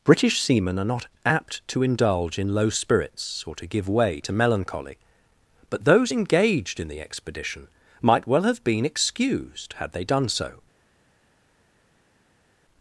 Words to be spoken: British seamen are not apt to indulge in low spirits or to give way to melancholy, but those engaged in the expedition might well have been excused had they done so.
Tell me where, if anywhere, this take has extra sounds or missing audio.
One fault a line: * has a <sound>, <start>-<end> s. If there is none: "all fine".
all fine